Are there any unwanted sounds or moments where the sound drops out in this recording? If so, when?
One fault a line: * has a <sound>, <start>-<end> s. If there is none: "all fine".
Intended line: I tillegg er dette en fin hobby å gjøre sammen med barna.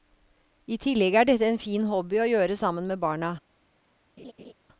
* has a laugh, 4.2-4.5 s